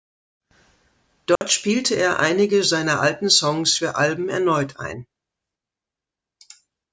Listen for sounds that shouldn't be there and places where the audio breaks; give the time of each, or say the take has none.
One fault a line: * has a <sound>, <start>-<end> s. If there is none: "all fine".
* has a dropout, 1.4-1.4 s